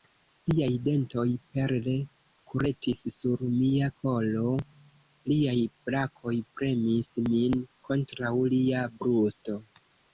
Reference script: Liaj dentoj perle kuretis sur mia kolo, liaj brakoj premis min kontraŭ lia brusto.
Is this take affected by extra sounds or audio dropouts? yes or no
no